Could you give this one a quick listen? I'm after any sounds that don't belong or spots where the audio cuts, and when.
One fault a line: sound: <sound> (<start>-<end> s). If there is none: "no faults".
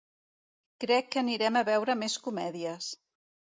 no faults